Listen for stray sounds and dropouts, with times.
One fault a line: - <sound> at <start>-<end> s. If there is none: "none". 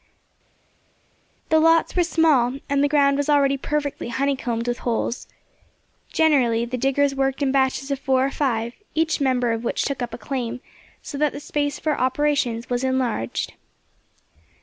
none